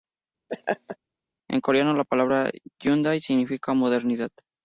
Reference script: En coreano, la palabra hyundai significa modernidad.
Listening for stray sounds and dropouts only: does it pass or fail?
fail